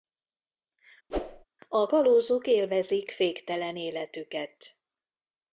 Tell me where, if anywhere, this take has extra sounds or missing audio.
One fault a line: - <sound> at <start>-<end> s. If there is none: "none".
- whoosh at 1.1-1.4 s